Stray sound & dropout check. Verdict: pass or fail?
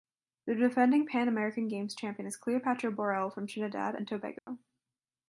fail